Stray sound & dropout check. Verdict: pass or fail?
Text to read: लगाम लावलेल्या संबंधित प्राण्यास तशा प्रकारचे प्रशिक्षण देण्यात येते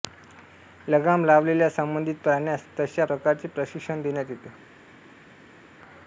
pass